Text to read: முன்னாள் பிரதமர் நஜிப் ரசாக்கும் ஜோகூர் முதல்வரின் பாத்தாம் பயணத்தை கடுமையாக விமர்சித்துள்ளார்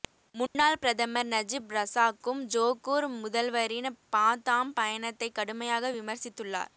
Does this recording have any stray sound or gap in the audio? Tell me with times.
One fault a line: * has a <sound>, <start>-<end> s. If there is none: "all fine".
* has a dropout, 0.5-0.6 s